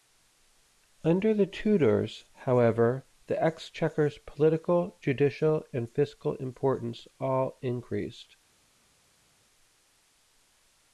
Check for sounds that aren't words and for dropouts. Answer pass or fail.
pass